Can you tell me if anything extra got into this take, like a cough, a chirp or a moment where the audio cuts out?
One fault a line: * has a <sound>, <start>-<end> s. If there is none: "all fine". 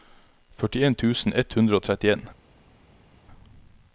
all fine